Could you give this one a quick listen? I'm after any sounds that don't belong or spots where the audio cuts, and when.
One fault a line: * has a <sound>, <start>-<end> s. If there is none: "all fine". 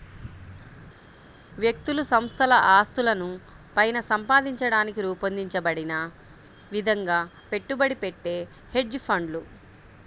all fine